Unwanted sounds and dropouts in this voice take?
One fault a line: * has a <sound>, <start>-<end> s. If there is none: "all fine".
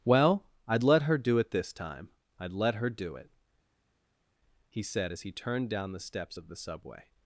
all fine